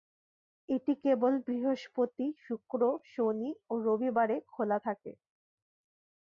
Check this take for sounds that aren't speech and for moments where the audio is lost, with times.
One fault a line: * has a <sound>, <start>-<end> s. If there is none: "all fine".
all fine